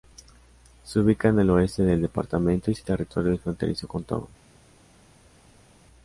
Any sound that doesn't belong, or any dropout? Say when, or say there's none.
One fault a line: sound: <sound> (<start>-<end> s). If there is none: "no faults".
no faults